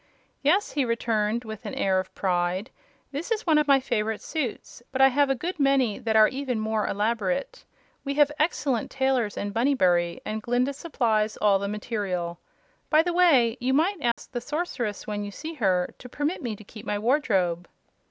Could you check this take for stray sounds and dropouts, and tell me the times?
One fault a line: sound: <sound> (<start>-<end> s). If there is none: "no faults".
sound: dropout (14.1-14.2 s)